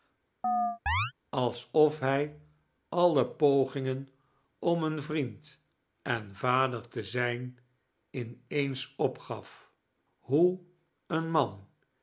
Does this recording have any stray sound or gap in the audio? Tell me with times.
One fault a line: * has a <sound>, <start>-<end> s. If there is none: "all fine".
* has a chirp, 0.4-1.1 s